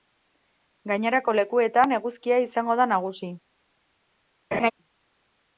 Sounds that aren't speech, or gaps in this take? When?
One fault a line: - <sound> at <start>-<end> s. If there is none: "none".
- laugh at 4.5-4.7 s